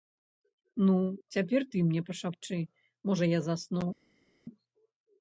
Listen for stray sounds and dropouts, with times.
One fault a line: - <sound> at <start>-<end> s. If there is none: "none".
none